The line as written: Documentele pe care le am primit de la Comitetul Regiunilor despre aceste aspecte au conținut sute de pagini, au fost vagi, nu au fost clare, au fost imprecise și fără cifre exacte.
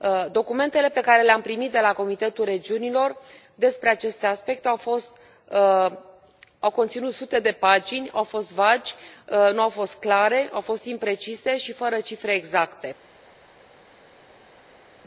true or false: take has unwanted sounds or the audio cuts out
false